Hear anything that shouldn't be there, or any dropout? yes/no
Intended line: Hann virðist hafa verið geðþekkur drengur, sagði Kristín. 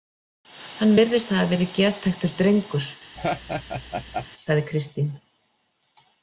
yes